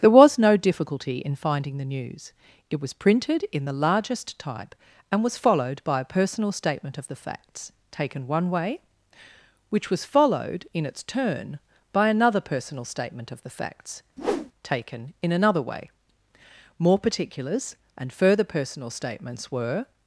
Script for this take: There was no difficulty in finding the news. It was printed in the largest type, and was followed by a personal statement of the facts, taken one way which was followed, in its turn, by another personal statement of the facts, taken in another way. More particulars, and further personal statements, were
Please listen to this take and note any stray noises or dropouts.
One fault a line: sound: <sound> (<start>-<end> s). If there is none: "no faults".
sound: whoosh (14.2-14.5 s)